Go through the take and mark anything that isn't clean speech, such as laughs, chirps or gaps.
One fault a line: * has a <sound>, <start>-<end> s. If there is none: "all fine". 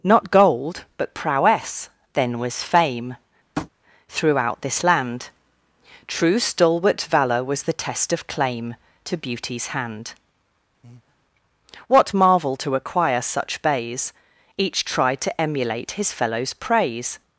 * has a tap, 3.6-3.7 s
* has a breath, 10.8-11.2 s